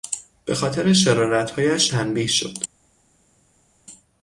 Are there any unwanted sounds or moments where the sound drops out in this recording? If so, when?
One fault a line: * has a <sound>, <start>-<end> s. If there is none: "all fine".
all fine